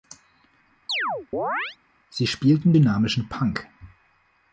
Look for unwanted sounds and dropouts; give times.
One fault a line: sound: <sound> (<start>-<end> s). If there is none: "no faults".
sound: chirp (0.9-1.8 s)